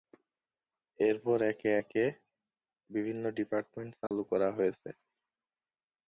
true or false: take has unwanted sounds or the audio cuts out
true